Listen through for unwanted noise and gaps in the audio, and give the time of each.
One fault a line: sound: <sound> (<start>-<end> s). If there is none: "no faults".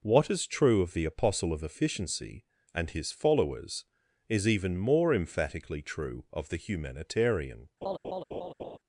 sound: laugh (7.8-8.8 s)